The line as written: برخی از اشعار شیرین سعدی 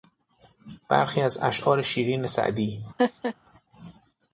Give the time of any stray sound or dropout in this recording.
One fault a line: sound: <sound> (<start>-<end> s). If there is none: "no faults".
sound: laugh (3.0-3.3 s)